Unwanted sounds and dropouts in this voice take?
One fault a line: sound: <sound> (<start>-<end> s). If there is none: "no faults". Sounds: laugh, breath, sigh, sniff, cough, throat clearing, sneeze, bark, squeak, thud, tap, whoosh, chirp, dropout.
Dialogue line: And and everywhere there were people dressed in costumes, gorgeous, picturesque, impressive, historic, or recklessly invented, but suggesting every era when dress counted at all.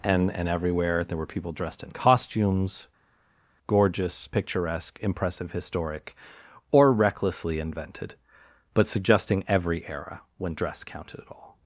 no faults